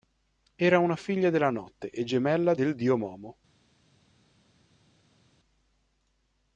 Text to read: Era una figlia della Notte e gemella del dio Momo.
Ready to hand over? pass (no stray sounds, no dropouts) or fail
pass